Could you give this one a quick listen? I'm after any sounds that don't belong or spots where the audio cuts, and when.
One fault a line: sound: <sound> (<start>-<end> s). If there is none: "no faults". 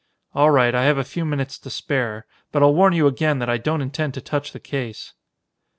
no faults